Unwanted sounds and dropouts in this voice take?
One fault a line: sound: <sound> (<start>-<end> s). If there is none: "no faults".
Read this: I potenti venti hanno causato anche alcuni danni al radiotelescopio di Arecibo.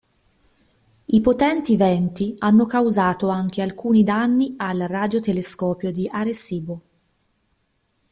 no faults